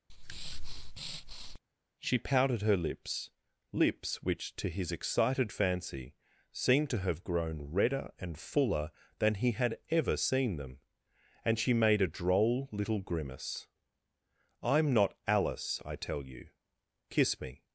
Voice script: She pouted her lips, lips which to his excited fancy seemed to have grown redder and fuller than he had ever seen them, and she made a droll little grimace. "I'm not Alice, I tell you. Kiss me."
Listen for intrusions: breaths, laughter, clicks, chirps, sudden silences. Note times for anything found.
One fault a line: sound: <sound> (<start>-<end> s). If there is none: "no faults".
sound: breath (0.1-1.6 s)